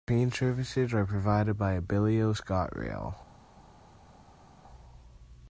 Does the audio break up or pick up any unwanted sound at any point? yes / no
no